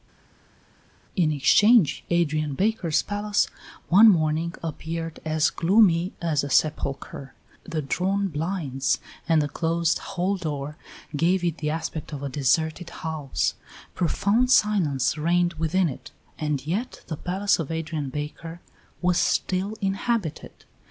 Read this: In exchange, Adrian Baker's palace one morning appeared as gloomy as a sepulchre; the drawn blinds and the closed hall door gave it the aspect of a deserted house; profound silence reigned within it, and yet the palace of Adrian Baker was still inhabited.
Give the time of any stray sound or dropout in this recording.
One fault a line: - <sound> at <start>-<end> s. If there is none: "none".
none